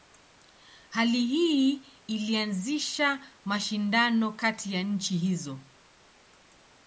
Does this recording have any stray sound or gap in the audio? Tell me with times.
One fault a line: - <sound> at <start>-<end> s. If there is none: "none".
none